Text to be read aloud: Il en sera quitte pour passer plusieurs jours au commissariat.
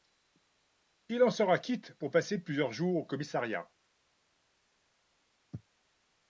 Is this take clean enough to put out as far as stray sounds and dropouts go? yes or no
yes